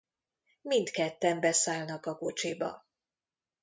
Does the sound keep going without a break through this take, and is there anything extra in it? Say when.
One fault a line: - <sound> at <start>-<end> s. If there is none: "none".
none